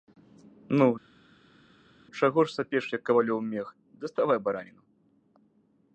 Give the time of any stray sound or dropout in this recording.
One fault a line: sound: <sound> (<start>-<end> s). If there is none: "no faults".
no faults